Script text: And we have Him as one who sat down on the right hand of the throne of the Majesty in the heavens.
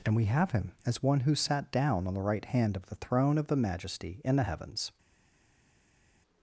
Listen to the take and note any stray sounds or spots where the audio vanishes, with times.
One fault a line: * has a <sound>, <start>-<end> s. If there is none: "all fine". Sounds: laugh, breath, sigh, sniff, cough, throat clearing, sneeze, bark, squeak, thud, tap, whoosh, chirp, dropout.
all fine